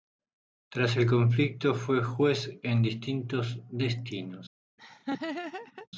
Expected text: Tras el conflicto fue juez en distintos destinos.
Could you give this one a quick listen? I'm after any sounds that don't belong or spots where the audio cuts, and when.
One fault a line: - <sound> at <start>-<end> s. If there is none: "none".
- laugh at 4.8-5.9 s